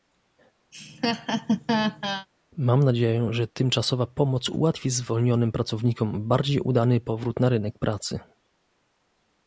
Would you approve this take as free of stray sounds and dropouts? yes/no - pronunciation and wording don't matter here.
no